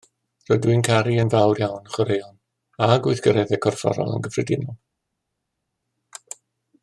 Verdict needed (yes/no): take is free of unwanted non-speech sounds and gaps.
yes